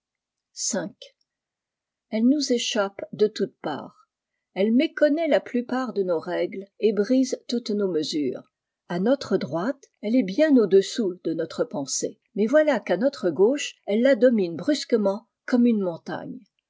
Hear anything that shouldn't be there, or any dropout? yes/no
no